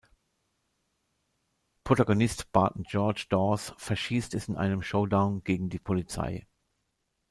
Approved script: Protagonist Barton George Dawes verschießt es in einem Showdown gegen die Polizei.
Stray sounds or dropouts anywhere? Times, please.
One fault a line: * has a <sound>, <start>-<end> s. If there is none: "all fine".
all fine